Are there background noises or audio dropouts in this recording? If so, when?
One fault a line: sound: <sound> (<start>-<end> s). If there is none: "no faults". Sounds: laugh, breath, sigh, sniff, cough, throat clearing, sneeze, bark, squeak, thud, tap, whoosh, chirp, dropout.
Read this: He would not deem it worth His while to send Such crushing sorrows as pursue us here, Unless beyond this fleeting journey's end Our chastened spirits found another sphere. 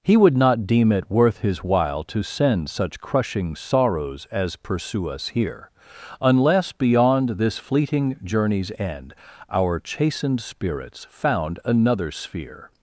no faults